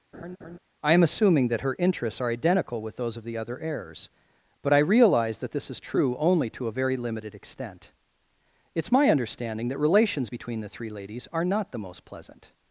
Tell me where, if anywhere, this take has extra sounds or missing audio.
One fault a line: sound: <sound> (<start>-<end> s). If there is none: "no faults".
sound: laugh (0.1-0.6 s)